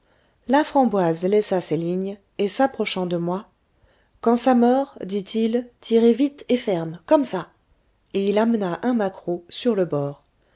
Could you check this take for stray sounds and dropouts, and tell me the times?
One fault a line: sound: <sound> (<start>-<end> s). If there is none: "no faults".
no faults